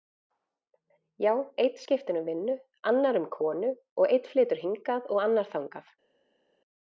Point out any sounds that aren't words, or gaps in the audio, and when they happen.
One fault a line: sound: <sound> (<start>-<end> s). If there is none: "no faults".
no faults